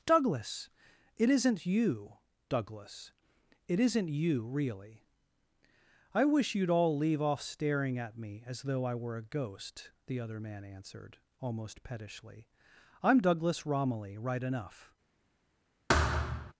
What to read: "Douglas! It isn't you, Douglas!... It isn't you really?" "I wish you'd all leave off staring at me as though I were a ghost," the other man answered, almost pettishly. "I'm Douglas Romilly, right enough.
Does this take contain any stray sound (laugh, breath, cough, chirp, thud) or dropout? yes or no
yes